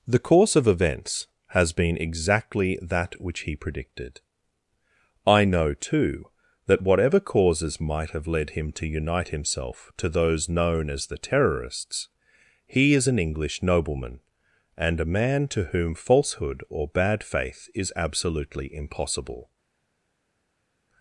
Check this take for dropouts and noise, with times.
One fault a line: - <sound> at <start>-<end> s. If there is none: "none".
none